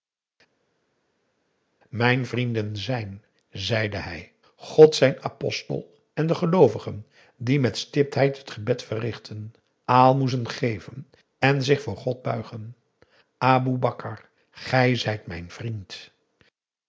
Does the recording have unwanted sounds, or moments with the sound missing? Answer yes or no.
no